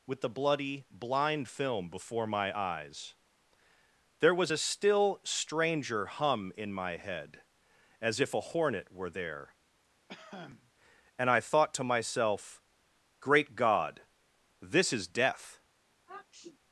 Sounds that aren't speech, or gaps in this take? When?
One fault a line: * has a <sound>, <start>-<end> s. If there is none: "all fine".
* has a cough, 10.1-10.7 s
* has a sniff, 16.1-16.6 s